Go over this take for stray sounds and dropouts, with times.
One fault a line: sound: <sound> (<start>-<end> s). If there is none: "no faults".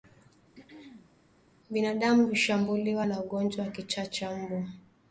sound: throat clearing (0.5-1.1 s)